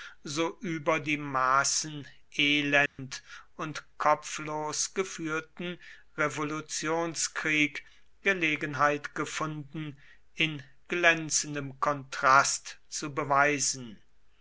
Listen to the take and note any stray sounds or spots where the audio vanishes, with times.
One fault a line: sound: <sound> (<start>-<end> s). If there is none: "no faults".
sound: dropout (2.9-3.0 s)